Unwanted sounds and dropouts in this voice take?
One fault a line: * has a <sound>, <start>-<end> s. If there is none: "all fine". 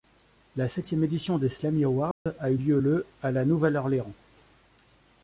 * has a dropout, 2.1-2.3 s